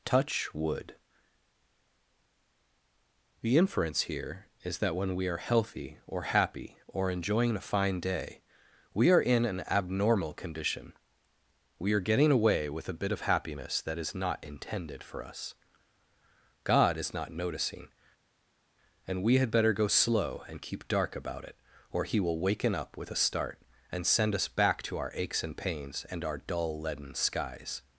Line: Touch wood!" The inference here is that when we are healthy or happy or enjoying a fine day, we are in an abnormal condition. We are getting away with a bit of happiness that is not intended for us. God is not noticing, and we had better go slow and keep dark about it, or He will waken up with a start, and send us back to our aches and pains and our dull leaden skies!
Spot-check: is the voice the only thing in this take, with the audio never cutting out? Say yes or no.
yes